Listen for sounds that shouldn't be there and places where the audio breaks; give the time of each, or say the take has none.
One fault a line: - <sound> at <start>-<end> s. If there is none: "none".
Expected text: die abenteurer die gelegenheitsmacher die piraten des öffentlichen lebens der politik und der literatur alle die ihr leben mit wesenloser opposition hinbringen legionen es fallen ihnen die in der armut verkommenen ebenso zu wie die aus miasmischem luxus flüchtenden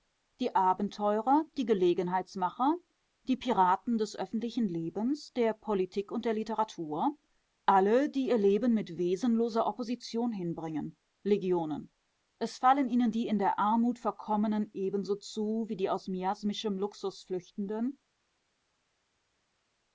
none